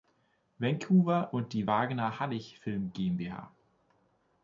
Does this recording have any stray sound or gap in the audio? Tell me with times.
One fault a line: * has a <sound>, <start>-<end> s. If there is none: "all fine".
all fine